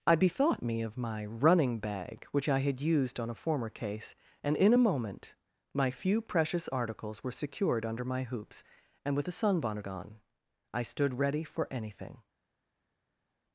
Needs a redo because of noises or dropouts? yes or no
no